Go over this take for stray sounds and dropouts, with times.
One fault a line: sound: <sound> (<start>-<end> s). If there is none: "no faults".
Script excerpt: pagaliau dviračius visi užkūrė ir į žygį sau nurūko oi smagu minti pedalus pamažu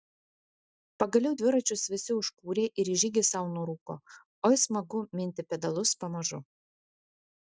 no faults